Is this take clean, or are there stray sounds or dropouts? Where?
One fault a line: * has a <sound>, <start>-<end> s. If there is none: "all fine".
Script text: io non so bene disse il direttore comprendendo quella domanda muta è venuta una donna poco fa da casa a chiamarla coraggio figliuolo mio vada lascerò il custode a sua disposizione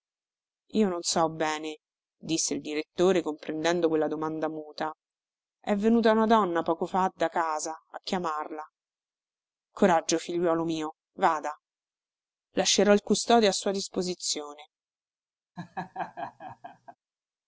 * has a laugh, 15.6-17.0 s